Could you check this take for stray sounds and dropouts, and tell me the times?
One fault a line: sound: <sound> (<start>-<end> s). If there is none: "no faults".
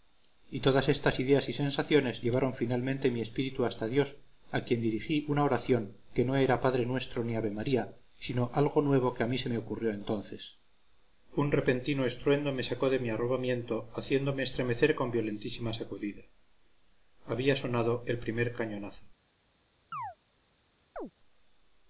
sound: chirp (19.9-20.2 s)
sound: chirp (21.0-21.1 s)